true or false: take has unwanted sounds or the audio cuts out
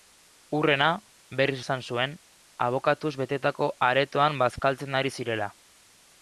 false